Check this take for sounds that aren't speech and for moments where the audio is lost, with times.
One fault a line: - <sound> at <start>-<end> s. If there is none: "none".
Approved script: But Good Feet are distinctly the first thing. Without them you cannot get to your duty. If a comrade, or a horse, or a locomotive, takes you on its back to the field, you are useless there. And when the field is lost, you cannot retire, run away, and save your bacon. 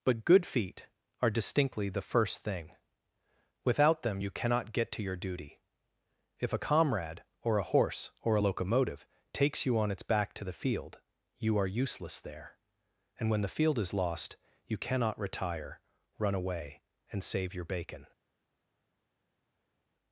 none